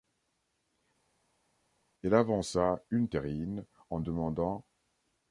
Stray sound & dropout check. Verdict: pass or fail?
pass